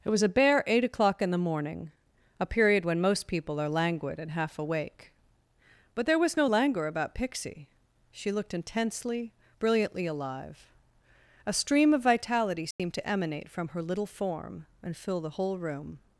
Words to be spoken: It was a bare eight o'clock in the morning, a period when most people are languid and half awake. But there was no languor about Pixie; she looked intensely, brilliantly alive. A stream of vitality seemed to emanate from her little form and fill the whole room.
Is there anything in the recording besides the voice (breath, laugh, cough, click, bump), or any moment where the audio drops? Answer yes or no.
yes